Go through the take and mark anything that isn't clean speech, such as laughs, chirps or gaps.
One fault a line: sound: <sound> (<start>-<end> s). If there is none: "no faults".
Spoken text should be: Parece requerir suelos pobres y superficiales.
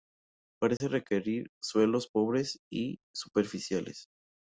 sound: dropout (0.8-0.8 s)